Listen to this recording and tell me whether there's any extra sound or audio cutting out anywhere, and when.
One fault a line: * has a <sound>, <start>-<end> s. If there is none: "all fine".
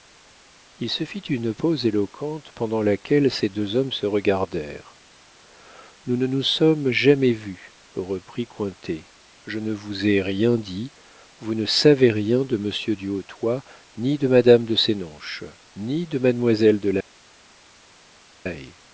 all fine